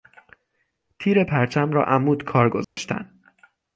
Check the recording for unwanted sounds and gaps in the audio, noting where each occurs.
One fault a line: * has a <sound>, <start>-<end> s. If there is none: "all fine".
* has a dropout, 2.6-2.8 s